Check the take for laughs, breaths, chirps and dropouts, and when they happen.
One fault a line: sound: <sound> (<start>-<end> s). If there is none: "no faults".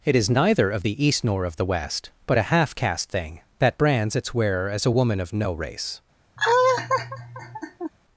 sound: laugh (6.4-7.9 s)